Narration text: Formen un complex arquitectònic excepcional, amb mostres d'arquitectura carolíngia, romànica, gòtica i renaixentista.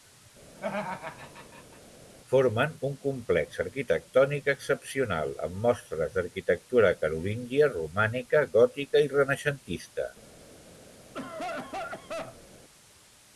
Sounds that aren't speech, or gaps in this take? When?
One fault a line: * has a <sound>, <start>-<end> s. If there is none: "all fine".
* has a laugh, 0.6-1.8 s
* has a cough, 11.1-12.5 s